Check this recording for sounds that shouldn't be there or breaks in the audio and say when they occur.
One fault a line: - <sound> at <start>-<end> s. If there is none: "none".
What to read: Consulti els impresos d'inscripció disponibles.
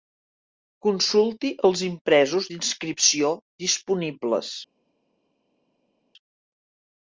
none